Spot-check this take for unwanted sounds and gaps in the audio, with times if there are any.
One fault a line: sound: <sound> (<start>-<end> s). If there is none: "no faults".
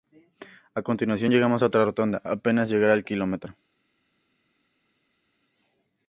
no faults